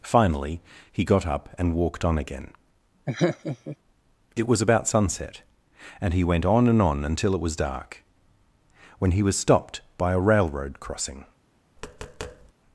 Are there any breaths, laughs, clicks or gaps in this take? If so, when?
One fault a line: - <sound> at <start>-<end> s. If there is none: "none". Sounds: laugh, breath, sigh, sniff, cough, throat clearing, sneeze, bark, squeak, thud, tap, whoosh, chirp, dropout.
- laugh at 3.1-3.8 s
- tap at 11.8-12.5 s